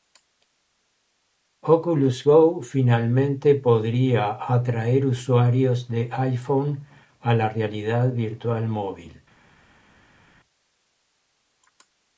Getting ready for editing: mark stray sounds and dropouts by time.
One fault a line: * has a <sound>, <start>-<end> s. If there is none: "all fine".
all fine